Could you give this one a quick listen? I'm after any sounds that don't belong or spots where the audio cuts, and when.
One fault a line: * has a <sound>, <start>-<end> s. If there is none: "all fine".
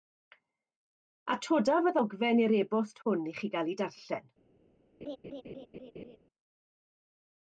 * has a laugh, 5.0-6.2 s